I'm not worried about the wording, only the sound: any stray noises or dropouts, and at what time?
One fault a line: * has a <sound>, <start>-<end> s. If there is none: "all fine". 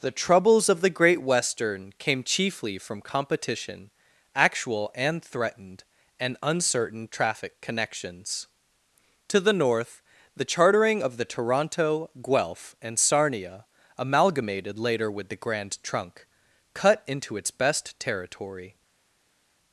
all fine